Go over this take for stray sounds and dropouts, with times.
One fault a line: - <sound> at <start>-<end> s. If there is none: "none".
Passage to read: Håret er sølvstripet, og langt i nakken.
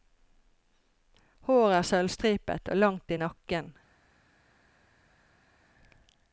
none